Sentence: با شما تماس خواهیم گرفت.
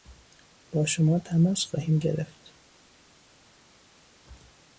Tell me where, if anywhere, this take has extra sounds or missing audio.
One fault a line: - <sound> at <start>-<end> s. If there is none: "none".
none